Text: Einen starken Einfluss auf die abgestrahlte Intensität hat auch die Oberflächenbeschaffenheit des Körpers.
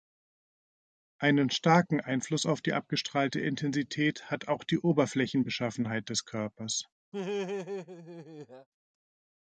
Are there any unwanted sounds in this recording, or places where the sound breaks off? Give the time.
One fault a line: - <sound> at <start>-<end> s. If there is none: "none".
- laugh at 7.1-8.7 s